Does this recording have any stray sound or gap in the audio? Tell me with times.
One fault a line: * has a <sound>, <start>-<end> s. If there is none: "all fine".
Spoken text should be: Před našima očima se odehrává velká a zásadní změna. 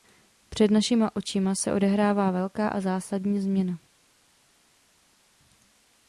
all fine